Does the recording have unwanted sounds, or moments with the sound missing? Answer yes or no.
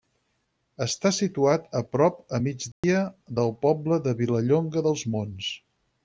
yes